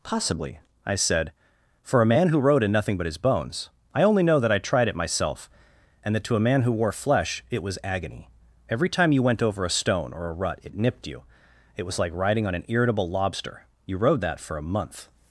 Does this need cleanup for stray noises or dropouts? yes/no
no